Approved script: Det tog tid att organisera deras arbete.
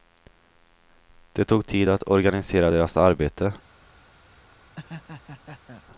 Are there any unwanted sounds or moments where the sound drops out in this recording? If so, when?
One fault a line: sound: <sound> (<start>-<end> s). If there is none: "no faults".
sound: laugh (4.8-5.8 s)